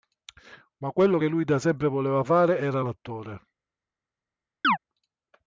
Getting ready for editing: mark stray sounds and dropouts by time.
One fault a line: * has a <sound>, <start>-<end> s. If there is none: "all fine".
* has a chirp, 4.6-4.8 s